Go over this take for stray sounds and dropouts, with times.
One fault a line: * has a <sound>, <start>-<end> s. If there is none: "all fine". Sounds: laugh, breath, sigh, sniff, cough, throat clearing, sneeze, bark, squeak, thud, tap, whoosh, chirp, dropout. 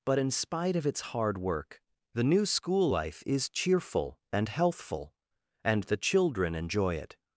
all fine